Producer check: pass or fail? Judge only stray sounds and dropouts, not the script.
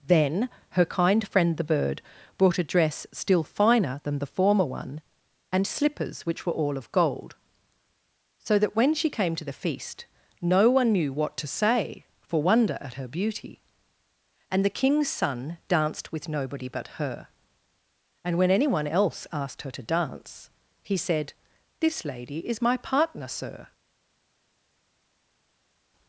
pass